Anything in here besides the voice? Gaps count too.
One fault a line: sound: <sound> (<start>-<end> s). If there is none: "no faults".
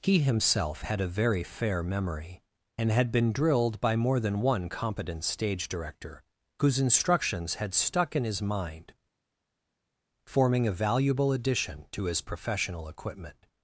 no faults